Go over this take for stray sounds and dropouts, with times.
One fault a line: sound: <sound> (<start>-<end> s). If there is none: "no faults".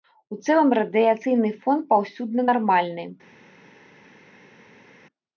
no faults